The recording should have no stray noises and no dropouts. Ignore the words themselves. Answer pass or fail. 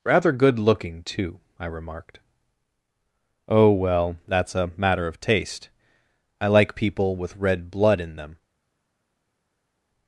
pass